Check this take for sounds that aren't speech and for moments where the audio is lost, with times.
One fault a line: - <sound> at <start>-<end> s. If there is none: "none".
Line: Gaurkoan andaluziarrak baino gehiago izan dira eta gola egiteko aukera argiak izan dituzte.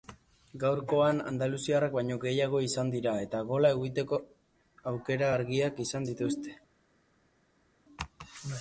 none